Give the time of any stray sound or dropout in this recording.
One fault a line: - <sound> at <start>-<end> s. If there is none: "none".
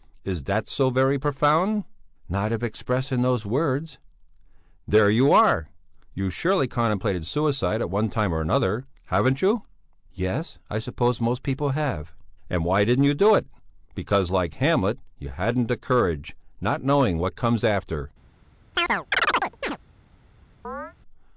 - chirp at 18.7-19.8 s
- chirp at 20.6-20.9 s